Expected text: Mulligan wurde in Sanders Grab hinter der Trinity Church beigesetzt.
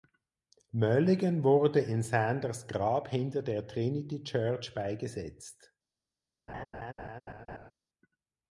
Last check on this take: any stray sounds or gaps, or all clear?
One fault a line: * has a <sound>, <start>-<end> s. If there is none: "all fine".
* has a laugh, 6.5-7.7 s